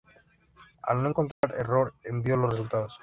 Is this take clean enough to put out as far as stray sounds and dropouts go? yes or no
no